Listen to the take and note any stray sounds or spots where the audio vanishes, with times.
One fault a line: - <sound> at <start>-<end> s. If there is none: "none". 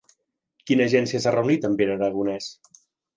none